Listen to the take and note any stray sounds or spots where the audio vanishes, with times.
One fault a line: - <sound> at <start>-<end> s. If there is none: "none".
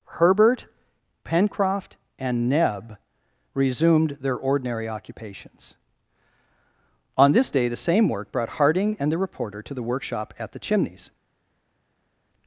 none